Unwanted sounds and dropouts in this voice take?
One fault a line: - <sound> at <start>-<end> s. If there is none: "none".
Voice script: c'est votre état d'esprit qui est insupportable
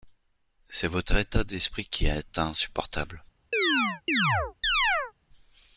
- chirp at 3.5-5.1 s